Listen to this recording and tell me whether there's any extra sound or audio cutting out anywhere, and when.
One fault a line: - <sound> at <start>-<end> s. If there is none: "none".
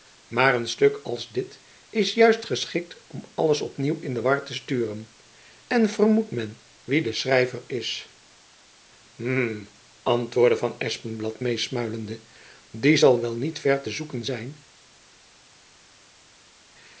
none